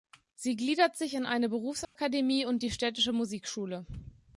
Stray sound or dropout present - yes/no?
yes